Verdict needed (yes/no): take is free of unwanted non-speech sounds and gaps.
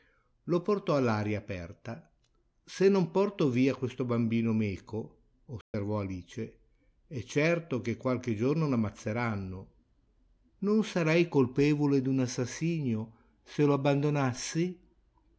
no